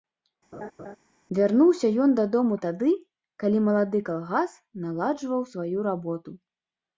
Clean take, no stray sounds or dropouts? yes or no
no